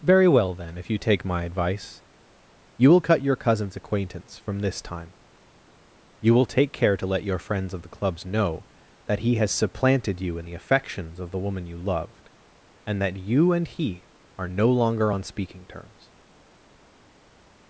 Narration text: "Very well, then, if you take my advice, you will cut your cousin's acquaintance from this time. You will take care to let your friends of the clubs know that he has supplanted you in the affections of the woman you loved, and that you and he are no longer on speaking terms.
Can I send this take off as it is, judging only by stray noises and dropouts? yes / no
yes